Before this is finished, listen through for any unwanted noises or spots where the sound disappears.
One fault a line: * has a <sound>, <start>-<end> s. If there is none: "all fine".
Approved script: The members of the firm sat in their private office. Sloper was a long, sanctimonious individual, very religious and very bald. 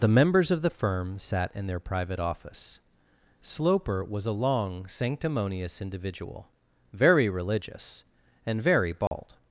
* has a dropout, 9.1-9.1 s